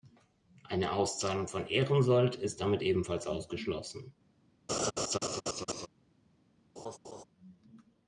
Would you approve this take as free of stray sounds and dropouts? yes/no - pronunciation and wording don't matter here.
no